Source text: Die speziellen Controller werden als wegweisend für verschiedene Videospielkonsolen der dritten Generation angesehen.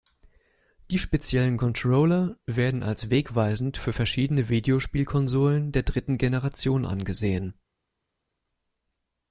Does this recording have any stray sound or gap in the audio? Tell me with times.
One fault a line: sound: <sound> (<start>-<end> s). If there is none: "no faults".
no faults